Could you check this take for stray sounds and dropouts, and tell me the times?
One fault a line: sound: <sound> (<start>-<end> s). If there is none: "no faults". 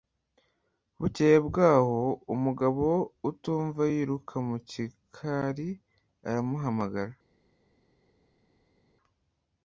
no faults